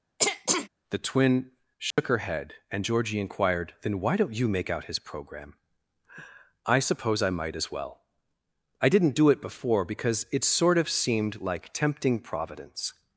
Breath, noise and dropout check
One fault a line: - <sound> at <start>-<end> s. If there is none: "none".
- throat clearing at 0.2-0.7 s
- dropout at 1.9-2.0 s